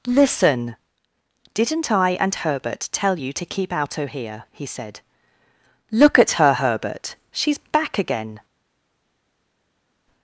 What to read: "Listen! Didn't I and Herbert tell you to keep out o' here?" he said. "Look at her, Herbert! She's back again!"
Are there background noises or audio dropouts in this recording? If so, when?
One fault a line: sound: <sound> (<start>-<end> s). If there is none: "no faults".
no faults